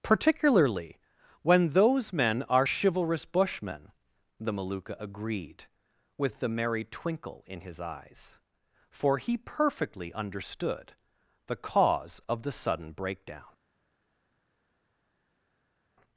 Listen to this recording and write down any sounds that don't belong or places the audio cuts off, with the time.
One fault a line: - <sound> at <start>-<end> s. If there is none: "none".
none